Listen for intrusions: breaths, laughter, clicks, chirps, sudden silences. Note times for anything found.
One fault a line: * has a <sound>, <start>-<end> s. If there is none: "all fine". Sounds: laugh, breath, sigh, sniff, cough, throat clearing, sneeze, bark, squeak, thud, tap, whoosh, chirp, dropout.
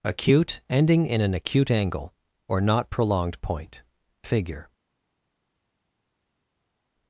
all fine